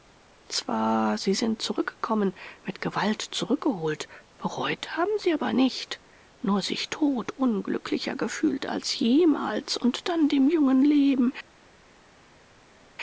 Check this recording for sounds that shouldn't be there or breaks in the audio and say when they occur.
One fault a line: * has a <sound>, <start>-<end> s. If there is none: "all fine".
all fine